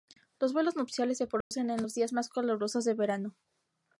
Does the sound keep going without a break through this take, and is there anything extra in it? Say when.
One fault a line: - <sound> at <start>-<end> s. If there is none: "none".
- dropout at 1.4-1.5 s